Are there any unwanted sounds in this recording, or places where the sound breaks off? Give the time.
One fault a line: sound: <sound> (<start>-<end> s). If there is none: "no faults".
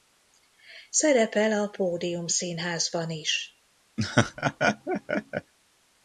sound: laugh (4.0-5.5 s)